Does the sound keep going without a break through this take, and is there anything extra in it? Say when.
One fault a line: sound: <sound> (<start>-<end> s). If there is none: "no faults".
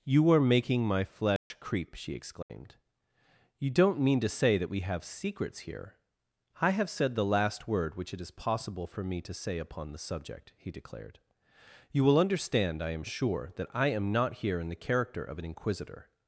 sound: dropout (1.4-1.5 s)
sound: dropout (2.4-2.5 s)